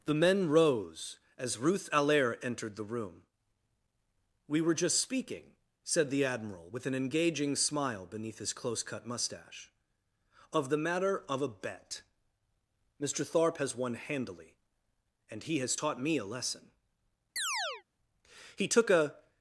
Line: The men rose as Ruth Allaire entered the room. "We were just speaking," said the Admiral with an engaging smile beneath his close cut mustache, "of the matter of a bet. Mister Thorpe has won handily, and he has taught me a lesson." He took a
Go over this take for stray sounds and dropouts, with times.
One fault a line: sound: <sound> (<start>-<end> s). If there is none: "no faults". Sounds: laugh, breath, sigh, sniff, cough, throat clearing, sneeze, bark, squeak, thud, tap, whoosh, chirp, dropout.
sound: chirp (17.4-17.8 s)